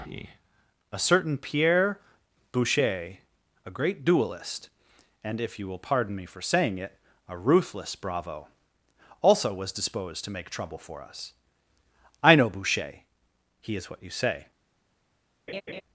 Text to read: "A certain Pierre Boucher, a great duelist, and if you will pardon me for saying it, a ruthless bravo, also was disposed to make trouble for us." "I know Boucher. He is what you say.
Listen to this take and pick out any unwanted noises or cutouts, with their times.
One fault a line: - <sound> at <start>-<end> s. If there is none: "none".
- laugh at 15.5-15.8 s